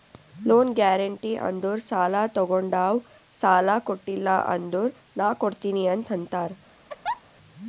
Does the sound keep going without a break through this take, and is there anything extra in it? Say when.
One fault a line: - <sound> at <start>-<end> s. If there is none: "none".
- laugh at 6.9-7.2 s